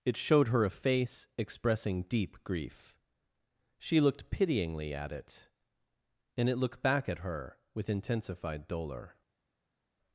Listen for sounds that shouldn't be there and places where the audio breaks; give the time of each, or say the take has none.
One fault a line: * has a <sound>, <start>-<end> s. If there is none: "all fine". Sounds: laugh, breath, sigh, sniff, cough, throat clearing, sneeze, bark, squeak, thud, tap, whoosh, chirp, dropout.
all fine